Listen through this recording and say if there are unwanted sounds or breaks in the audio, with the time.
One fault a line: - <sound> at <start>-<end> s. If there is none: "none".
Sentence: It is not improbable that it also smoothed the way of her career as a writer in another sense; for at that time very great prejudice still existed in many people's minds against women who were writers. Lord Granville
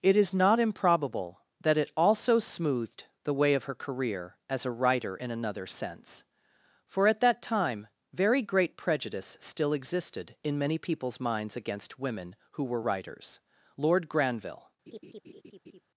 - laugh at 14.9-15.8 s